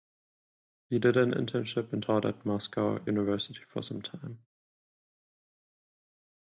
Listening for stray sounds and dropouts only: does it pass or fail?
pass